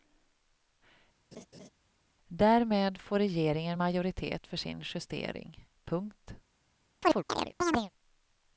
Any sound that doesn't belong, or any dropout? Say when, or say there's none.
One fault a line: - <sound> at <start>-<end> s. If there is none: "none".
- laugh at 1.3-1.7 s
- chirp at 7.0-7.9 s